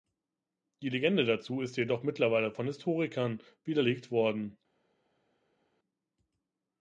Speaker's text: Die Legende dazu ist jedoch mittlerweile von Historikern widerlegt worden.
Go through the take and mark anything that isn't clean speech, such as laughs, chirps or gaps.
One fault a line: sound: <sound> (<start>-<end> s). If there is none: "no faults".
no faults